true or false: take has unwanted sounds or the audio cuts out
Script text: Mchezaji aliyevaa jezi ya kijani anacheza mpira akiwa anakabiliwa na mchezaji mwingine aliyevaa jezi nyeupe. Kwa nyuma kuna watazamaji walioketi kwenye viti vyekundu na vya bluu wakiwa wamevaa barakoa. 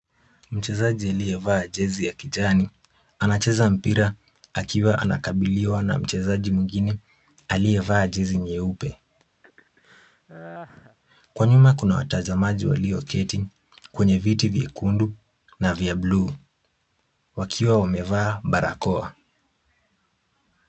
true